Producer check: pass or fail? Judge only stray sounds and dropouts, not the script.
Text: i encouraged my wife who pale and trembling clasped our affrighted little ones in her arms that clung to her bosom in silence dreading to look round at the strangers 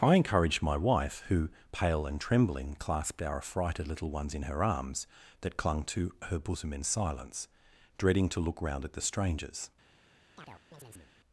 fail